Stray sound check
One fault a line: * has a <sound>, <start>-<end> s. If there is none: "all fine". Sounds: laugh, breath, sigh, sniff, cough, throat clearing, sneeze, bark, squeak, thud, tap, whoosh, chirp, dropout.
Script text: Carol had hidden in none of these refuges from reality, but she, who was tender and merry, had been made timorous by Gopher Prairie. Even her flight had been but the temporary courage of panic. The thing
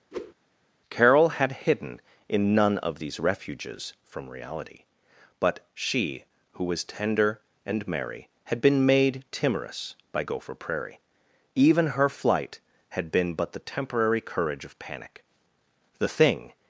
* has a whoosh, 0.1-0.3 s